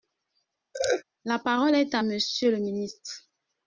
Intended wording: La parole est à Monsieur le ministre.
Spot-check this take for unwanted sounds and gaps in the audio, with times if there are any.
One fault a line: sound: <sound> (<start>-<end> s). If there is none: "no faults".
sound: laugh (0.7-1.0 s)